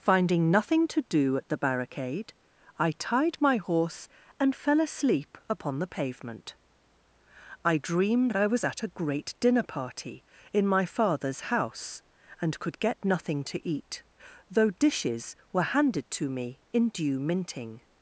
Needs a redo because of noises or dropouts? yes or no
no